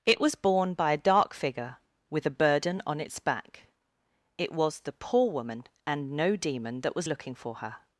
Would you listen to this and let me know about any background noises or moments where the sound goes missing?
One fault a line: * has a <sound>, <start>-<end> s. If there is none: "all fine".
all fine